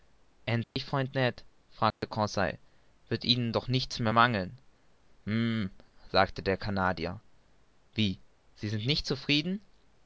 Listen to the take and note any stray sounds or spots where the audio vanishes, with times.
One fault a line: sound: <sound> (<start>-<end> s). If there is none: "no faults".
sound: dropout (0.6-0.8 s)
sound: dropout (1.9-2.0 s)